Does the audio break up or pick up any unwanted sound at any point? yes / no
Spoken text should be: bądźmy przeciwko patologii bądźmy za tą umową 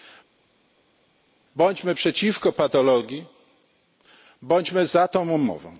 no